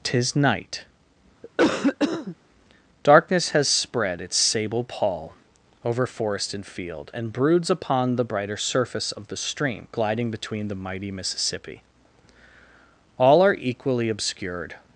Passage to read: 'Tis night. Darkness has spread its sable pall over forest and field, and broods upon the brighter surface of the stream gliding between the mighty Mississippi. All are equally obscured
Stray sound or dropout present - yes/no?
yes